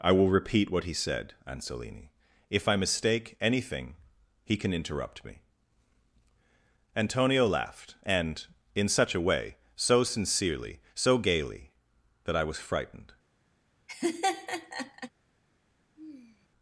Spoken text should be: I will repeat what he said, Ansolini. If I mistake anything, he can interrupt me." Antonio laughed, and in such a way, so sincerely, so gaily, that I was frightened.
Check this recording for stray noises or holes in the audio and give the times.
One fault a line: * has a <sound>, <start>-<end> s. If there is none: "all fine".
* has a laugh, 13.9-15.1 s
* has a sigh, 16.0-16.5 s